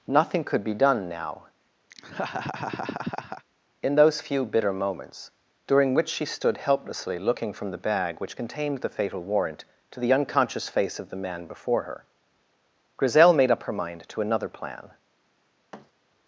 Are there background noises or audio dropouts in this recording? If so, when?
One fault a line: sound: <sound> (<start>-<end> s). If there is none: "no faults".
sound: laugh (1.9-3.4 s)
sound: thud (15.7-15.9 s)